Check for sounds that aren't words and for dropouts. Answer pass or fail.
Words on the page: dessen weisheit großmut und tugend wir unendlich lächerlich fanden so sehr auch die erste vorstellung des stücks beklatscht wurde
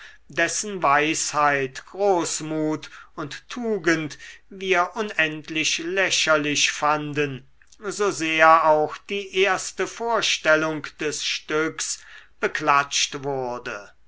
pass